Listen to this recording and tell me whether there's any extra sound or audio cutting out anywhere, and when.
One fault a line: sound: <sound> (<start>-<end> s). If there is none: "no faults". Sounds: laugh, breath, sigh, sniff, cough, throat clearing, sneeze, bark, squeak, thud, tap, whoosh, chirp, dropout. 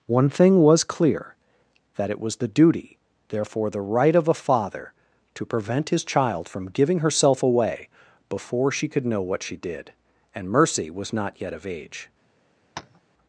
sound: tap (12.8-13.0 s)